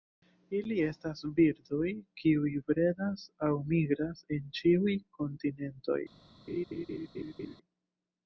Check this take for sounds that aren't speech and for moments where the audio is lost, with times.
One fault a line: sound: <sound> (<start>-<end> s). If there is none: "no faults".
sound: laugh (6.5-7.6 s)